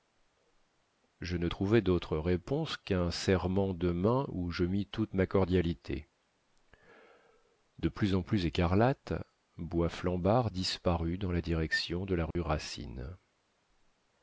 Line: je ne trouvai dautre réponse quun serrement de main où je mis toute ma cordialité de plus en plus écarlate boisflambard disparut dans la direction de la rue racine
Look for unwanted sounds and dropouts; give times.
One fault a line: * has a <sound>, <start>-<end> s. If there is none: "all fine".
* has a dropout, 12.3-12.4 s